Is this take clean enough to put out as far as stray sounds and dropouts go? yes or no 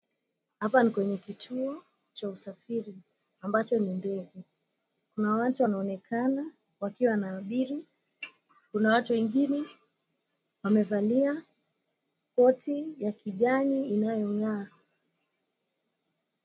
yes